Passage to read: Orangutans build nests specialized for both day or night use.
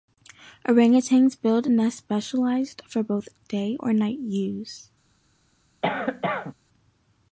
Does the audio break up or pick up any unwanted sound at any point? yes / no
yes